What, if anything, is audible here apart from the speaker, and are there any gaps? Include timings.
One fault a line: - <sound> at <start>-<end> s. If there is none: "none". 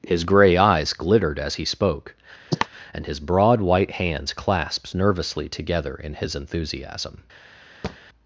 - cough at 2.5-2.7 s
- thud at 7.8-8.0 s